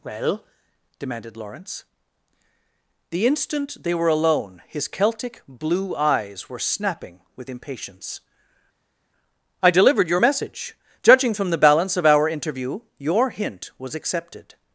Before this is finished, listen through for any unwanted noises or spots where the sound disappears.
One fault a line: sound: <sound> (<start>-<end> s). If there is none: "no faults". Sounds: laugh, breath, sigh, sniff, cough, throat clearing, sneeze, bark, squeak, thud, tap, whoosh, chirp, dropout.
no faults